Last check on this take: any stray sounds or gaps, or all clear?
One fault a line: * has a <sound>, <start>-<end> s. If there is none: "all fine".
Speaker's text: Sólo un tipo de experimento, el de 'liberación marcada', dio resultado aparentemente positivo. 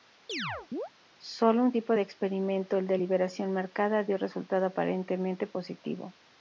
* has a chirp, 0.3-0.9 s